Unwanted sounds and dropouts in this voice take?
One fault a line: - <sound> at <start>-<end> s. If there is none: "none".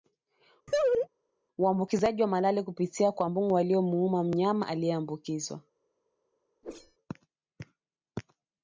- laugh at 0.7-1.1 s
- whoosh at 6.6-7.0 s